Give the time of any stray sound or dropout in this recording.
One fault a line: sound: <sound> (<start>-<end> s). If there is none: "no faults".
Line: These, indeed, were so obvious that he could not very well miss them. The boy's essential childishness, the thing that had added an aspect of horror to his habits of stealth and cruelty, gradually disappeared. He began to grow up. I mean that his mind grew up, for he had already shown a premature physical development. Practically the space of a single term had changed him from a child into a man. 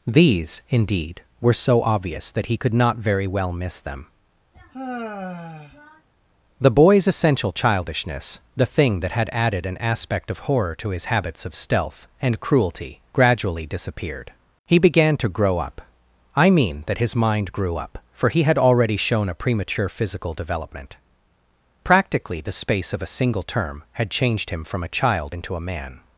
sound: sigh (4.5-6.1 s)